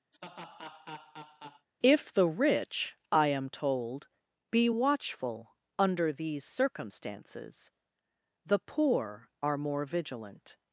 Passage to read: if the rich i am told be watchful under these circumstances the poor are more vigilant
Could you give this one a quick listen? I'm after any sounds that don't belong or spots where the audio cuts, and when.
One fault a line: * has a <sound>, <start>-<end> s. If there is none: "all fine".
* has a laugh, 0.1-1.7 s